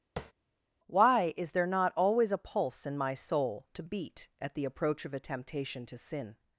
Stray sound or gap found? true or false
true